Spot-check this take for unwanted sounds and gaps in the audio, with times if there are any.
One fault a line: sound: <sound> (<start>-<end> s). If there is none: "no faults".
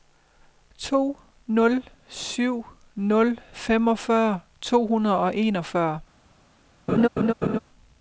sound: laugh (6.9-7.6 s)